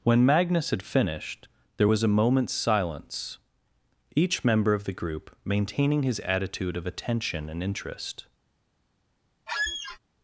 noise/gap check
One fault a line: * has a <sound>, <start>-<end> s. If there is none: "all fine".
* has a squeak, 9.5-10.0 s